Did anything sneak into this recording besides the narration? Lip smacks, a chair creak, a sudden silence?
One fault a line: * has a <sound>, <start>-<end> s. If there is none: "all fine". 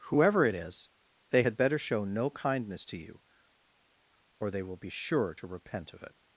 all fine